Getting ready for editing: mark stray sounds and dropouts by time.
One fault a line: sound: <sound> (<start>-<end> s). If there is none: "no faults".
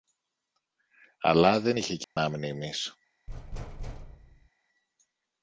sound: dropout (2.0-2.2 s)
sound: thud (3.3-4.5 s)